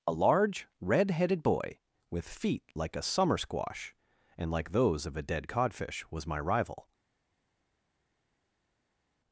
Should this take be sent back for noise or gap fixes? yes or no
no